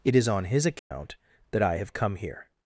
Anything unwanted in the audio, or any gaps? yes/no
yes